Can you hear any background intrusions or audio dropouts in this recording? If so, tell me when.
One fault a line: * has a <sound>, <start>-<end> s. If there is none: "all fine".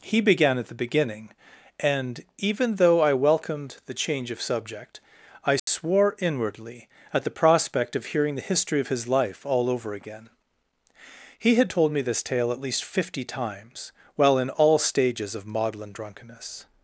* has a dropout, 5.6-5.7 s